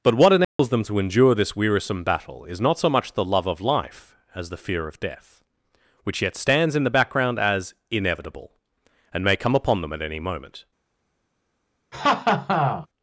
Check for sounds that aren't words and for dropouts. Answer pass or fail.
fail